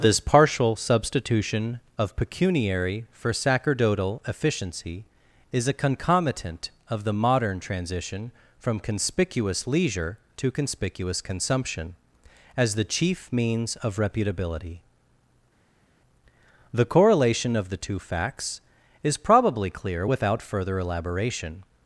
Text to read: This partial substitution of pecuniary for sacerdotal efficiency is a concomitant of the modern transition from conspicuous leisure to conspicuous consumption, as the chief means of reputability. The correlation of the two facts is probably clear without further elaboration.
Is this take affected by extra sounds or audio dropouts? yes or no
no